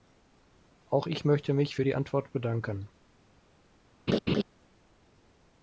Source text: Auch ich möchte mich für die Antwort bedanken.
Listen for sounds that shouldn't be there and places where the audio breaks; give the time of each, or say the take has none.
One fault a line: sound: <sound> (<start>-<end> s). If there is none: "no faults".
sound: laugh (4.1-4.4 s)